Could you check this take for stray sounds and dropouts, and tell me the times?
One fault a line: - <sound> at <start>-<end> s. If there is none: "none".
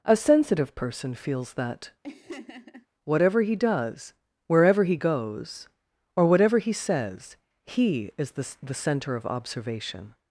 - laugh at 2.0-2.9 s